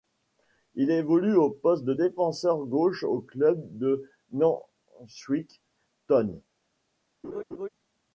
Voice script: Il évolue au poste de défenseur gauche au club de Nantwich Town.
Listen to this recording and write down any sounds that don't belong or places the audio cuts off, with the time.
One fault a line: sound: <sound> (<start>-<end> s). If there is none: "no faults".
sound: laugh (7.2-7.7 s)